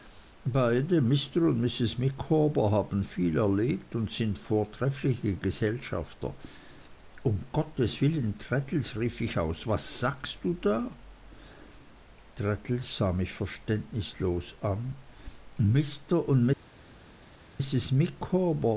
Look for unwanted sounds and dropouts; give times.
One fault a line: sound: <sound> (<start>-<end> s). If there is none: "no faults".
no faults